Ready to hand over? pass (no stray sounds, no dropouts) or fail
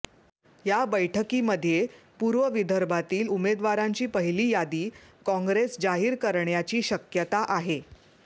pass